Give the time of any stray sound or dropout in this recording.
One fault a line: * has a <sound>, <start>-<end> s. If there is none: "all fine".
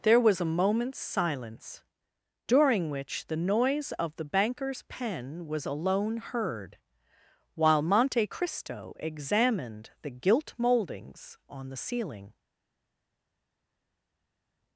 all fine